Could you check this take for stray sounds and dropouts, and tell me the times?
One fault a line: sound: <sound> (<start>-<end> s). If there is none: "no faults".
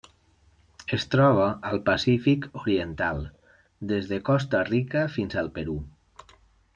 no faults